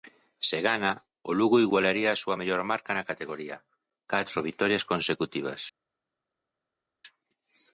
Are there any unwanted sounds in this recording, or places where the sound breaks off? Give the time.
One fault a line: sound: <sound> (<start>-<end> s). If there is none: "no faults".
no faults